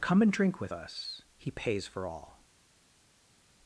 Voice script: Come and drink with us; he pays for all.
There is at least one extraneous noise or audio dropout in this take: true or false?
false